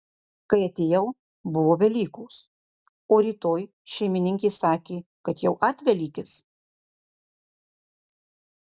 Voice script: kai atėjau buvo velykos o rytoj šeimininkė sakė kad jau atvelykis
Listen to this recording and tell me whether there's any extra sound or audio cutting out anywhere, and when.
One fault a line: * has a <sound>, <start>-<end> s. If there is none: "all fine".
all fine